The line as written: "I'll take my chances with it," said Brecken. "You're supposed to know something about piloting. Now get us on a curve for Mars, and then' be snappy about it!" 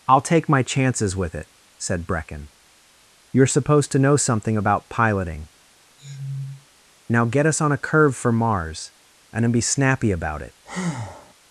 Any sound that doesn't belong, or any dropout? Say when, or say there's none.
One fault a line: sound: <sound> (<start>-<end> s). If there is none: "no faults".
sound: sniff (6.0-6.7 s)
sound: breath (10.6-11.3 s)